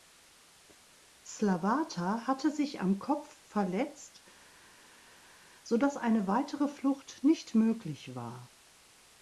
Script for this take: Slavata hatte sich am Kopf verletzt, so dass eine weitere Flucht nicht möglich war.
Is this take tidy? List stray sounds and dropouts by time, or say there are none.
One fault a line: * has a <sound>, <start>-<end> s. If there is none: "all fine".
all fine